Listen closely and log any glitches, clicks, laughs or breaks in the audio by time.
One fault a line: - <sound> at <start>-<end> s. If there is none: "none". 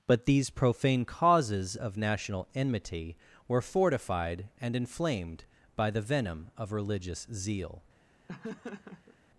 - laugh at 8.3-9.2 s